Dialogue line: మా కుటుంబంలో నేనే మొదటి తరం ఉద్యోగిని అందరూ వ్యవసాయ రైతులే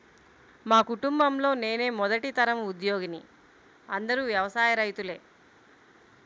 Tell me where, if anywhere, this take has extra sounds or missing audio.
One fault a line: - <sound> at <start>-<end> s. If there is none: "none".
none